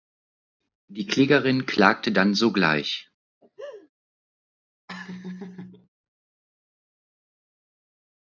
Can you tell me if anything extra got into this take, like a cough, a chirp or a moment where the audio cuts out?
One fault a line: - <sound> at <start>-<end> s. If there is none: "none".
- laugh at 3.4-3.9 s
- laugh at 4.9-5.9 s